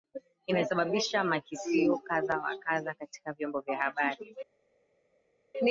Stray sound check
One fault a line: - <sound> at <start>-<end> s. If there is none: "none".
none